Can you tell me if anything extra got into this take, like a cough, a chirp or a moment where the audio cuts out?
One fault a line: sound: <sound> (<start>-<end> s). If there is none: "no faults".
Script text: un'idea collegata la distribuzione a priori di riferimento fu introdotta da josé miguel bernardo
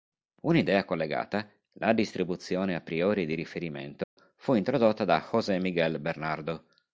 sound: dropout (4.0-4.2 s)